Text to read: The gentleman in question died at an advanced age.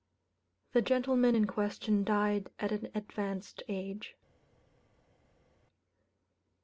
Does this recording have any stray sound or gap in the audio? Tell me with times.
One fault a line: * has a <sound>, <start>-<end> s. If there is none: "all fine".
all fine